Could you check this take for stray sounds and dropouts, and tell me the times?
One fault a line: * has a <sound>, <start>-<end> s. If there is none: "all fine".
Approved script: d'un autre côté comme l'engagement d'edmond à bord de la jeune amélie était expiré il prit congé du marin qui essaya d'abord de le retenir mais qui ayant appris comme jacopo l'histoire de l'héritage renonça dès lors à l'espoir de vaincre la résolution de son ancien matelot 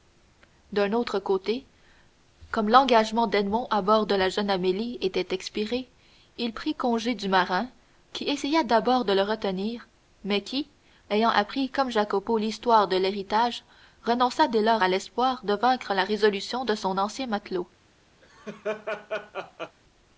* has a laugh, 18.2-19.8 s